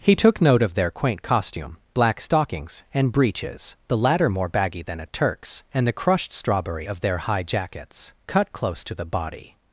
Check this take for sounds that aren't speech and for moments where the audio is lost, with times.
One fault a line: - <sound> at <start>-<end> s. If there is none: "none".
none